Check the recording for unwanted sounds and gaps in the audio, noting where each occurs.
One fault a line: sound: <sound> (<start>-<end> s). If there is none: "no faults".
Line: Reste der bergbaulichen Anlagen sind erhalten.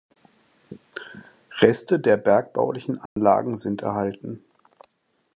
sound: dropout (3.1-3.2 s)